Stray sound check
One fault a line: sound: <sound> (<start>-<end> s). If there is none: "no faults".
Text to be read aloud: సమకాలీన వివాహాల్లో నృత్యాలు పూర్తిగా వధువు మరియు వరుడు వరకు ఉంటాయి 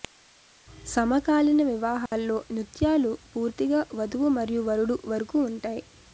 sound: dropout (2.1-2.1 s)